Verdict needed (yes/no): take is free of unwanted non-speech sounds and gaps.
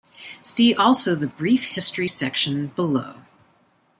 yes